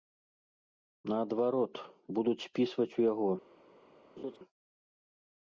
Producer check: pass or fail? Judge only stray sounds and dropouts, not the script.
fail